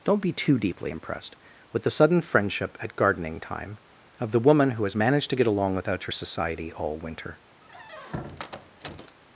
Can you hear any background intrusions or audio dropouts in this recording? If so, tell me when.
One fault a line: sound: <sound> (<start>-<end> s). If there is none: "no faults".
sound: squeak (7.6-9.2 s)